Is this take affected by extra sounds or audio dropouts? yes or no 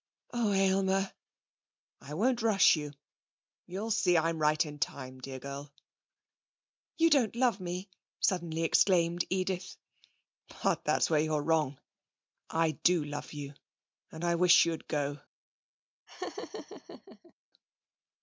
yes